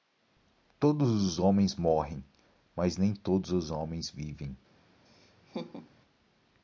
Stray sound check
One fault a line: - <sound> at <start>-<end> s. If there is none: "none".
- laugh at 5.1-5.9 s